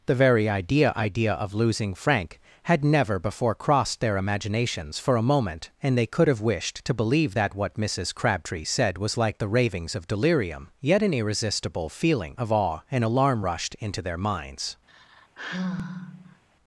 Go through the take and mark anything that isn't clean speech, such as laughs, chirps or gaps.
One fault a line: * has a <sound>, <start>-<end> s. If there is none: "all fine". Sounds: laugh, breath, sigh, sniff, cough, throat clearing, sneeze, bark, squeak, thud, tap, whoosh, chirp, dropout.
* has a sigh, 14.9-16.4 s